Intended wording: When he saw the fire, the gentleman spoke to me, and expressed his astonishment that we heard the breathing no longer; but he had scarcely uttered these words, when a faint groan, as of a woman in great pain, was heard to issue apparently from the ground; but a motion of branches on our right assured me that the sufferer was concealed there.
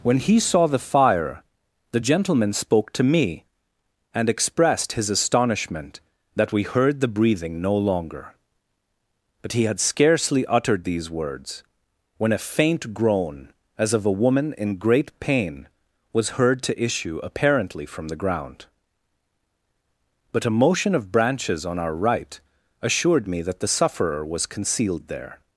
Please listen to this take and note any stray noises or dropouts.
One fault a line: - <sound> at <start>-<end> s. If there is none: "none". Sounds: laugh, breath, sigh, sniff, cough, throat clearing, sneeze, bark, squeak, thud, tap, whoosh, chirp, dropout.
none